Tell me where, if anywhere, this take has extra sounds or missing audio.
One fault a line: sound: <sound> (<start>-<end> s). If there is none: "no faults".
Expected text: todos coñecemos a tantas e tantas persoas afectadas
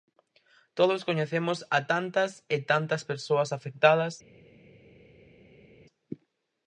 no faults